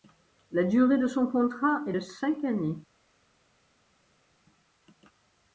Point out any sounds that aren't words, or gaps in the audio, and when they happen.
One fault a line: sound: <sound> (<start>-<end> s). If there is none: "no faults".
no faults